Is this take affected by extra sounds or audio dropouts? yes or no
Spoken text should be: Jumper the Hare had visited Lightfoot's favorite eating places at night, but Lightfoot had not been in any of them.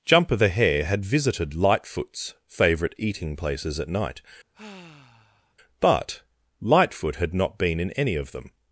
yes